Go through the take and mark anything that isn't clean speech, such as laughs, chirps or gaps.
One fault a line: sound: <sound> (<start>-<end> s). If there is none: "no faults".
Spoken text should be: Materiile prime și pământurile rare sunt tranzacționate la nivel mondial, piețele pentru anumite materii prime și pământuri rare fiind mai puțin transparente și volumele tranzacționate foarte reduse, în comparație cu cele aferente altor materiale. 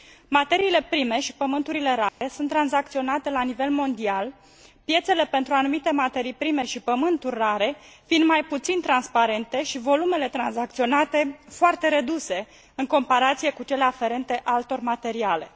sound: dropout (2.1-2.2 s)